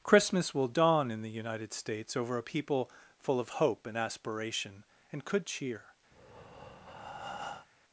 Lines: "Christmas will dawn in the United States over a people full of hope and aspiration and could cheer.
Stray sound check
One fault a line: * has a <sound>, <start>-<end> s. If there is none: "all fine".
* has a breath, 6.1-7.7 s